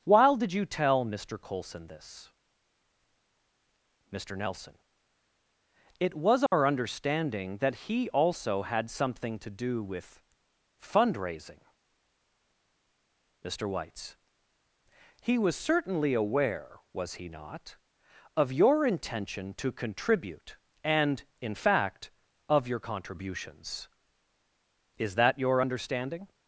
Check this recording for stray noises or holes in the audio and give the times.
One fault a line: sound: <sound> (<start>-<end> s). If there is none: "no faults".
sound: dropout (6.5-6.5 s)